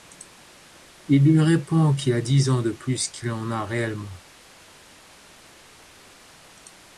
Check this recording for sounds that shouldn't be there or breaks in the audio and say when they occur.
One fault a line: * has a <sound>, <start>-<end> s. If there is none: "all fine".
all fine